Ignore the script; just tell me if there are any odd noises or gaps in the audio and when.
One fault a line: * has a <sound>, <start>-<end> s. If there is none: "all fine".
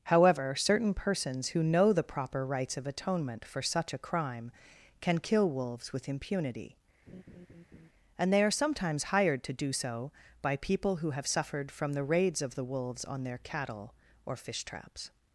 * has a laugh, 7.1-7.9 s